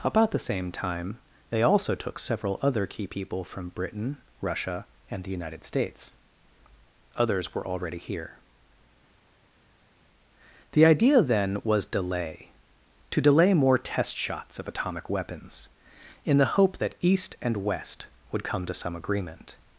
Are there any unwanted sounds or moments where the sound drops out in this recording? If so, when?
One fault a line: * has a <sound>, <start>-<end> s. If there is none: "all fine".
all fine